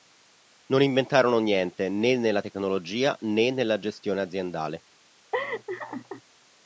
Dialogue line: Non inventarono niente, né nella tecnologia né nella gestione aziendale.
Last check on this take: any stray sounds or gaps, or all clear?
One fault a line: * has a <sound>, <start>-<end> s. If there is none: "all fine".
* has a laugh, 5.3-6.2 s